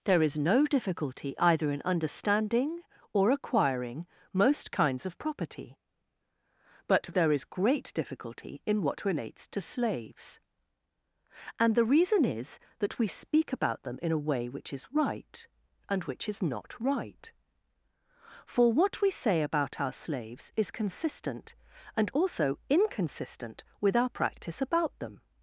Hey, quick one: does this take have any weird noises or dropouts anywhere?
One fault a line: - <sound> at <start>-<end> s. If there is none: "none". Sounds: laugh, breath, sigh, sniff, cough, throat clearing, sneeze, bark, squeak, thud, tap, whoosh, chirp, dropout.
none